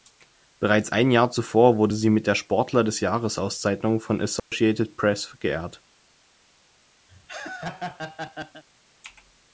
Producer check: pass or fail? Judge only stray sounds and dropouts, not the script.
fail